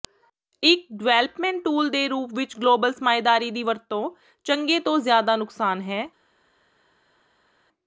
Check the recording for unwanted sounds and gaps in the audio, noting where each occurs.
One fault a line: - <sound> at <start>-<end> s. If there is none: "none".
none